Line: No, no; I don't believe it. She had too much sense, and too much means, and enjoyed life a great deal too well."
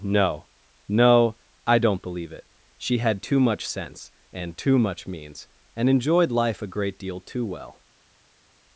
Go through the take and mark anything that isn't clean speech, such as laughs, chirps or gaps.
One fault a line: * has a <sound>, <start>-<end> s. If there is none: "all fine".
all fine